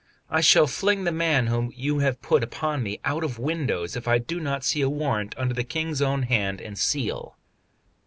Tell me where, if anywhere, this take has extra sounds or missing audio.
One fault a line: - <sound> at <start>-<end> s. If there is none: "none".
none